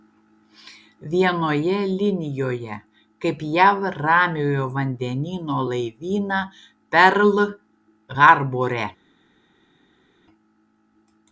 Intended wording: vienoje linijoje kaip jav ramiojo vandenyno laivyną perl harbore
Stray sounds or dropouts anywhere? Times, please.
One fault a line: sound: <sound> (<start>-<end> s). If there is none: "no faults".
no faults